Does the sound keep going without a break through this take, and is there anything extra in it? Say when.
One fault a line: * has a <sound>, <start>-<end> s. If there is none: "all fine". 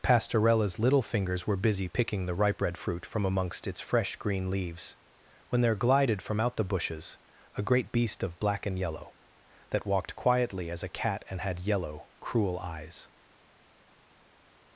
all fine